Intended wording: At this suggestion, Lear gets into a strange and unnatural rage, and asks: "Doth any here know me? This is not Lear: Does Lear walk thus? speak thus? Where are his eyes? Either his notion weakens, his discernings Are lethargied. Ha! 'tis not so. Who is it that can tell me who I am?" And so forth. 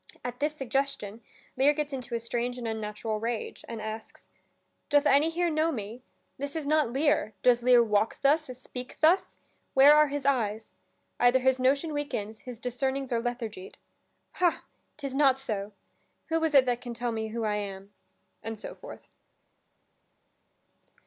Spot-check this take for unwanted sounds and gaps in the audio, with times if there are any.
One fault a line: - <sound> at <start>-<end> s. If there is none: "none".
none